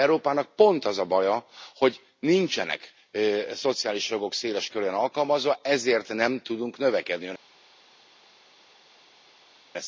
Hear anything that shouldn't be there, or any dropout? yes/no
no